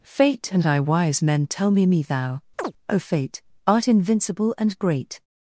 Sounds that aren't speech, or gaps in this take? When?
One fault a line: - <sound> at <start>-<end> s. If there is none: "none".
- chirp at 2.6-2.7 s